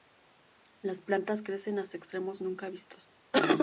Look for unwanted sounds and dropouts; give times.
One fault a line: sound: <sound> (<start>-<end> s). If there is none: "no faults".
no faults